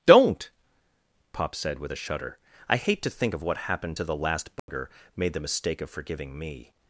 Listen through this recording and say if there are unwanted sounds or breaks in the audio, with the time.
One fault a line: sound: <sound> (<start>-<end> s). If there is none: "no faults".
sound: dropout (4.6-4.7 s)